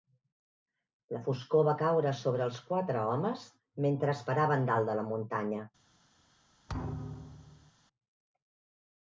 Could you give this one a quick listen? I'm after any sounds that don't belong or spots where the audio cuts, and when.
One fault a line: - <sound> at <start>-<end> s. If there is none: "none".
- thud at 6.7-7.7 s